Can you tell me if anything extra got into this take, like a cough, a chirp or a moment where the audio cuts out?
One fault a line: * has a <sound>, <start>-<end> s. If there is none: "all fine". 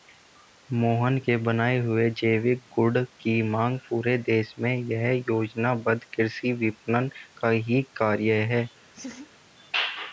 * has a laugh, 8.9-9.3 s